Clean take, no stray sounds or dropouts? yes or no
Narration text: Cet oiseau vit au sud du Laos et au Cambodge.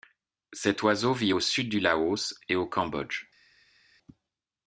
yes